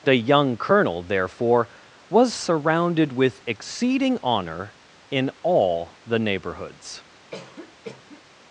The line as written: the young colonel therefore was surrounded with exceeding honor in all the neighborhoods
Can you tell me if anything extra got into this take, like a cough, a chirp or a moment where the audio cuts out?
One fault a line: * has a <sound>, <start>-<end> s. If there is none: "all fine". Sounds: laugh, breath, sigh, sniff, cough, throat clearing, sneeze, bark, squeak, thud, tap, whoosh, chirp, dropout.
* has a cough, 7.3-8.2 s